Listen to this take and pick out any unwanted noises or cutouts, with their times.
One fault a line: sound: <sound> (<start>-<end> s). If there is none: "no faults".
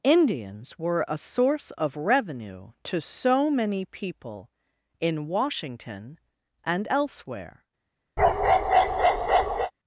sound: bark (8.2-9.7 s)